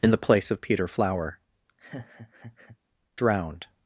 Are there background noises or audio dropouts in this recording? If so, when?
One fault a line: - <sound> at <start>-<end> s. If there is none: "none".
- laugh at 1.7-2.8 s